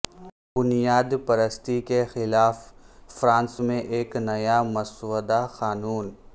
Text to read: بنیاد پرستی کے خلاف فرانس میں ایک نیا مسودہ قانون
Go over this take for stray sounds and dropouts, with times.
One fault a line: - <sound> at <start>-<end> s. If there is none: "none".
none